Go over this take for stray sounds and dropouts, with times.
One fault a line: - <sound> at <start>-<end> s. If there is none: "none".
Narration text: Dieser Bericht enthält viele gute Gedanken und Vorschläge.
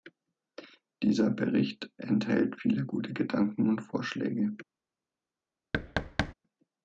- thud at 5.7-6.3 s